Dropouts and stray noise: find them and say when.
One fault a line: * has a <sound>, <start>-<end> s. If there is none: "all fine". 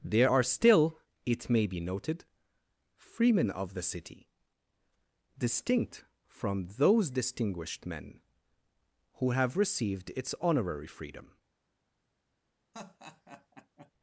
* has a laugh, 12.7-13.9 s